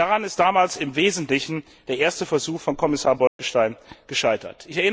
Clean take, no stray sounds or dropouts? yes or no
no